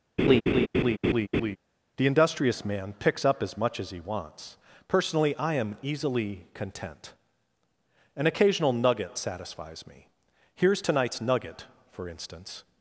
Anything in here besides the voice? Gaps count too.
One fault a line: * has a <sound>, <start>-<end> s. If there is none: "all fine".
* has a laugh, 0.2-1.6 s